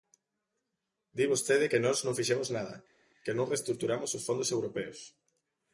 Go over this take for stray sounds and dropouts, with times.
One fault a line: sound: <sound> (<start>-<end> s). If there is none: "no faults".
no faults